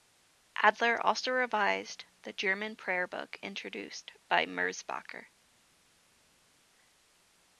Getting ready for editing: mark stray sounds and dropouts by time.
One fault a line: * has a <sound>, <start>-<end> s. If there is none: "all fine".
all fine